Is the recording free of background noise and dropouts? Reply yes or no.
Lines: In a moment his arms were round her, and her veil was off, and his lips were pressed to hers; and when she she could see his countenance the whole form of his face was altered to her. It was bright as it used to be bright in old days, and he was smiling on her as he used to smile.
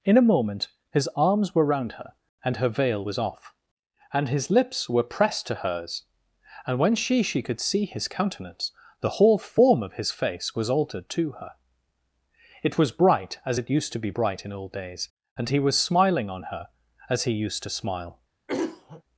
no